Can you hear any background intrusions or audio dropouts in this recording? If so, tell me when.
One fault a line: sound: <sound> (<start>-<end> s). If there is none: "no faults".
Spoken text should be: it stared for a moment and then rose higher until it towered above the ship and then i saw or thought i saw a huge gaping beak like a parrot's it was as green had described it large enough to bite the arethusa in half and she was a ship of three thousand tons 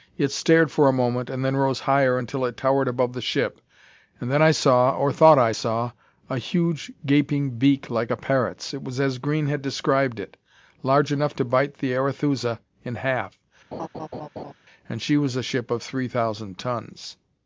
sound: laugh (13.7-14.5 s)